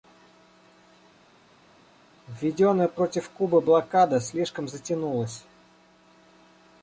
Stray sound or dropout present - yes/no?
no